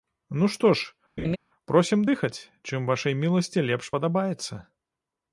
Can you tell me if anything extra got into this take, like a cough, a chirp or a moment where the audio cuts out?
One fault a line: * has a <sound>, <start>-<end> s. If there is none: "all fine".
* has a laugh, 1.2-1.4 s